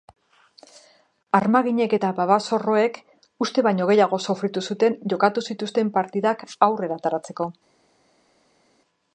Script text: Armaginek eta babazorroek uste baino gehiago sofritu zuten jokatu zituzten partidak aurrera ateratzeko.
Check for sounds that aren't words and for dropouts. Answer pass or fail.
pass